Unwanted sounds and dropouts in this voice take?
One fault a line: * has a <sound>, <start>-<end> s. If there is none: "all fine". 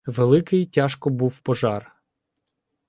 all fine